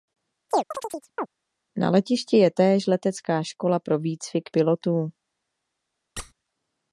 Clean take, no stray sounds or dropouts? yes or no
no